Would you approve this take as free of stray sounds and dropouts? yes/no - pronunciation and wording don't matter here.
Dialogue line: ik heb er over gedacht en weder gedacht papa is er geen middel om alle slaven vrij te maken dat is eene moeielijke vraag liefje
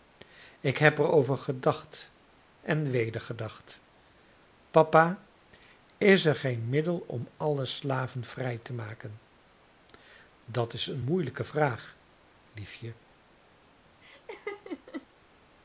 no